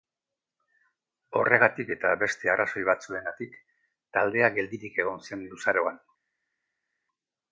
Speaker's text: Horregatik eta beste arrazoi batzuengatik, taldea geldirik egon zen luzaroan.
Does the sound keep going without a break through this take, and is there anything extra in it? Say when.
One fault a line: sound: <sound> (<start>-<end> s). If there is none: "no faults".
no faults